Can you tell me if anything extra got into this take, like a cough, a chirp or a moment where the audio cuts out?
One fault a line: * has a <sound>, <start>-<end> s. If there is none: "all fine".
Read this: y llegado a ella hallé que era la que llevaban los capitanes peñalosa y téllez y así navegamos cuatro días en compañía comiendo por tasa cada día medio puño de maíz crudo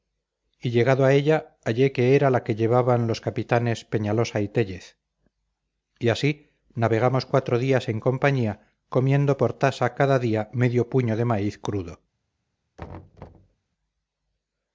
* has a thud, 12.8-13.6 s